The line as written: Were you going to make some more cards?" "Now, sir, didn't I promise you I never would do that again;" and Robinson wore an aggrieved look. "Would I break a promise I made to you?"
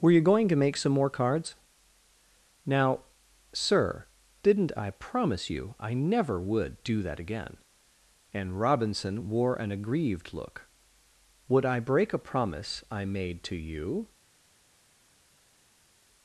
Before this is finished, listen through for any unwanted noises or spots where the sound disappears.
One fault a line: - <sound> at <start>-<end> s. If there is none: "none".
none